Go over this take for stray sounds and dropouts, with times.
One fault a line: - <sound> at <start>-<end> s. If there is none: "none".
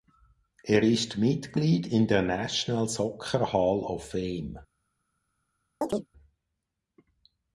- chirp at 5.8-6.1 s